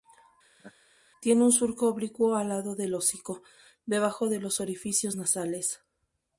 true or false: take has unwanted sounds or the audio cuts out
true